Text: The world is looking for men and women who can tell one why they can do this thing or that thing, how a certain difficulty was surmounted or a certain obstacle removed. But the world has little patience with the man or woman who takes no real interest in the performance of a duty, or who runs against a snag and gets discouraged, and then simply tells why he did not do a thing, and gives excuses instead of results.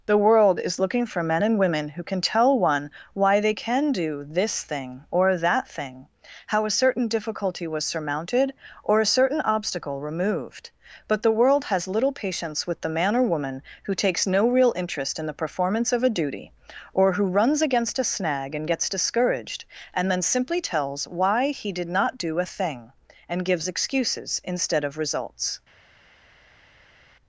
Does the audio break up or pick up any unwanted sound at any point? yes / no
no